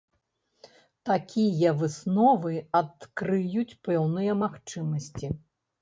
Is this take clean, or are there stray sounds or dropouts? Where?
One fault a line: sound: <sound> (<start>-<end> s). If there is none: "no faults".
no faults